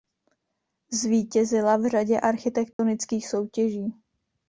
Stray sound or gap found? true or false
true